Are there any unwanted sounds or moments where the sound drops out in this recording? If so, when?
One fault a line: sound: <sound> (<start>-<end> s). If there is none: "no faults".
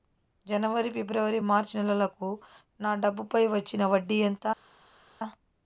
no faults